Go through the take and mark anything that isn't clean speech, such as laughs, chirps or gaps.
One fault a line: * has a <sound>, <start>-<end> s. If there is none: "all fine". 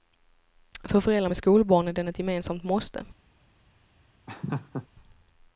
* has a laugh, 4.3-4.9 s